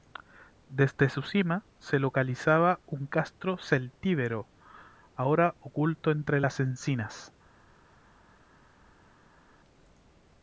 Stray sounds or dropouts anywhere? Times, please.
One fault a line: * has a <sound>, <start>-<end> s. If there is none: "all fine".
all fine